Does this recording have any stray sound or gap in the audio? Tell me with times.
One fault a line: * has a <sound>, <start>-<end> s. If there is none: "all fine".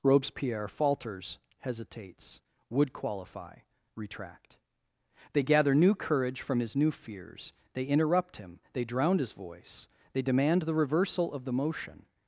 all fine